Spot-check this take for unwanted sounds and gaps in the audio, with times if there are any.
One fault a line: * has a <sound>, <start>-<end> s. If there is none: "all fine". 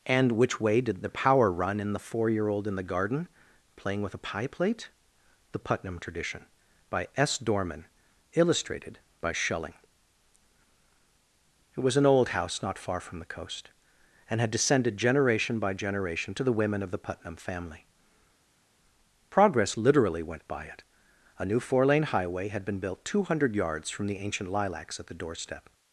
all fine